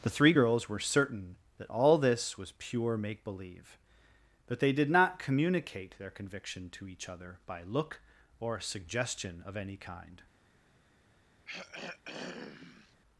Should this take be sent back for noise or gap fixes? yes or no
yes